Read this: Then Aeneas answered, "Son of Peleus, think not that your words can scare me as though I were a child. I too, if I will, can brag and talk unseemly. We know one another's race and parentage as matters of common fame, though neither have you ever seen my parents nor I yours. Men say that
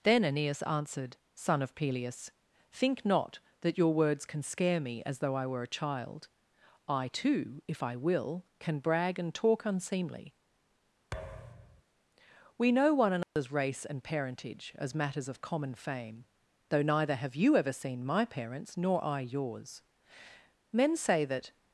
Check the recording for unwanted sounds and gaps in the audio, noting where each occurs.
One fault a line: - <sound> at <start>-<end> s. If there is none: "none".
- thud at 11.1-11.8 s
- dropout at 13.2-13.4 s